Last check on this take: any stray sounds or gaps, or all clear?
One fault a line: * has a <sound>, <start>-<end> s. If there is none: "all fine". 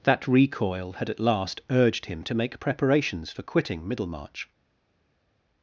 all fine